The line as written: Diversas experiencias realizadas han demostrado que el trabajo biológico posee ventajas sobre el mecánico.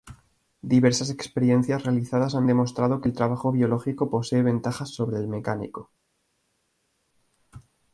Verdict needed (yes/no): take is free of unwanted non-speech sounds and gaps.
yes